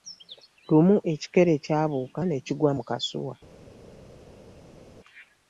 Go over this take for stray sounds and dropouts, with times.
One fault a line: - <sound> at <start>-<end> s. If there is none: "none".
none